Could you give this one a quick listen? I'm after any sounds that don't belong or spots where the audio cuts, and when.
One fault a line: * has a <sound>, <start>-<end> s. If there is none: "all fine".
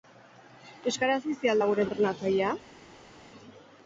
all fine